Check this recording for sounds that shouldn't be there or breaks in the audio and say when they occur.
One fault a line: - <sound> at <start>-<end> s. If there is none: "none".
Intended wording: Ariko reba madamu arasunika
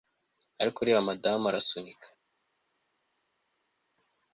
none